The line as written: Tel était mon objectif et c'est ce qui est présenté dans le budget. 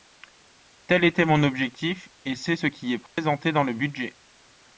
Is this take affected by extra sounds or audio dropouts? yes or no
yes